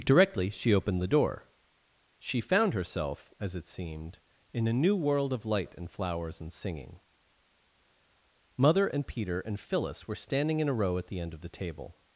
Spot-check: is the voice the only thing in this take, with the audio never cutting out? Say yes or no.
yes